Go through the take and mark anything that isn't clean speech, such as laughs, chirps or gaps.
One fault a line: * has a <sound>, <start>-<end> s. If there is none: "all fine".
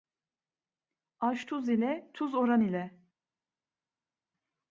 all fine